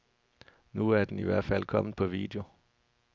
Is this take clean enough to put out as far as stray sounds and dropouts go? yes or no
yes